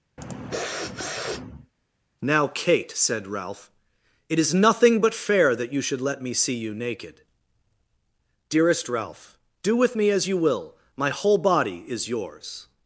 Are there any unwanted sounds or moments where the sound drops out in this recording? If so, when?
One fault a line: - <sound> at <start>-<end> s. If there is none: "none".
- sniff at 0.2-1.7 s